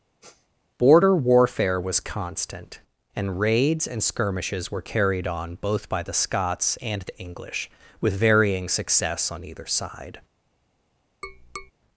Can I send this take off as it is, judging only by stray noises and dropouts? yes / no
no